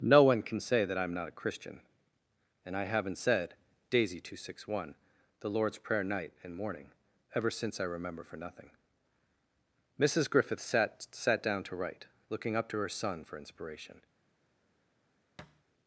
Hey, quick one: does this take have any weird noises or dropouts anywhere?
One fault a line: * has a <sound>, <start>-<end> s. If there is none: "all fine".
* has a thud, 15.4-15.6 s